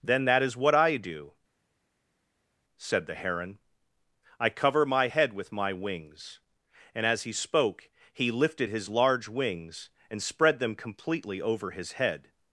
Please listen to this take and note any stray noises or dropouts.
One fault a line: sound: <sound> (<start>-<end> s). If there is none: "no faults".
no faults